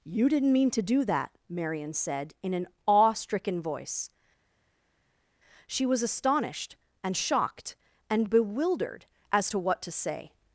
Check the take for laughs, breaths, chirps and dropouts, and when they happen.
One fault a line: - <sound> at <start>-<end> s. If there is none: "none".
none